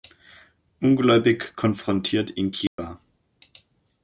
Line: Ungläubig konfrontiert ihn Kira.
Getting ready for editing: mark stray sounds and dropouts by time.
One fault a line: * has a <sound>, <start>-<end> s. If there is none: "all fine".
* has a dropout, 2.7-2.8 s